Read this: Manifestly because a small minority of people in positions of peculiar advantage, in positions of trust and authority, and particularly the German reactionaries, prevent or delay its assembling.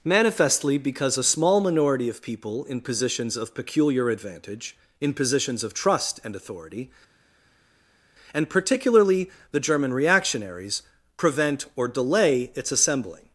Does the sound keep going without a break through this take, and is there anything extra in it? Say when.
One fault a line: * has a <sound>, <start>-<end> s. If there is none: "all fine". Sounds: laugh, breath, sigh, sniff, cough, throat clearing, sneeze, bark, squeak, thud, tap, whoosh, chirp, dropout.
all fine